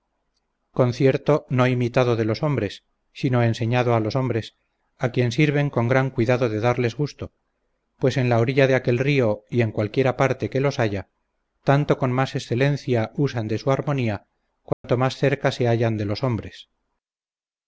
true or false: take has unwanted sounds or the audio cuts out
true